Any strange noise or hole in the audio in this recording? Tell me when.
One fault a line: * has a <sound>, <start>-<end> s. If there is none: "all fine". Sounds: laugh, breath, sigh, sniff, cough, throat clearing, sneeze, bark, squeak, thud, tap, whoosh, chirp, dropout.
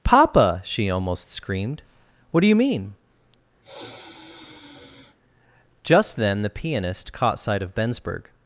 * has a sigh, 3.6-5.2 s